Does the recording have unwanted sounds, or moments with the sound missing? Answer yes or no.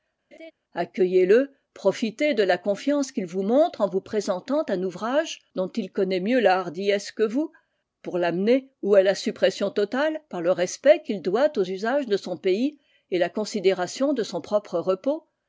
yes